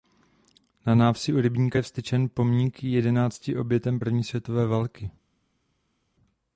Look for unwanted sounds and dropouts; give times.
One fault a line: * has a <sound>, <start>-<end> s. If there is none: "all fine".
all fine